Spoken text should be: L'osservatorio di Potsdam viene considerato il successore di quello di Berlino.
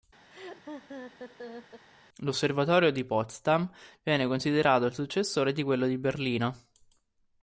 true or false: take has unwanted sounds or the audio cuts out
true